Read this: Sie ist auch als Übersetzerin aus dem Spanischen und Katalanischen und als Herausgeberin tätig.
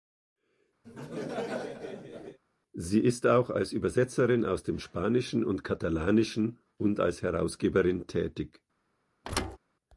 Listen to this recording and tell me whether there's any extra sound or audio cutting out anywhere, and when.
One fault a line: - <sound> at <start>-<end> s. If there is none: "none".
- laugh at 0.8-2.4 s
- thud at 9.2-9.6 s